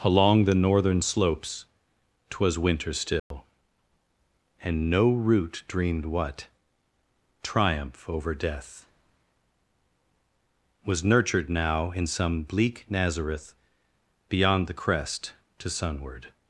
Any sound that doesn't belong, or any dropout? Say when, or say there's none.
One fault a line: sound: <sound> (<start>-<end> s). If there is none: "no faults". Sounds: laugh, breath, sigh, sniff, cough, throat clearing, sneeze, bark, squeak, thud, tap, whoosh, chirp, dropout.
sound: dropout (3.2-3.3 s)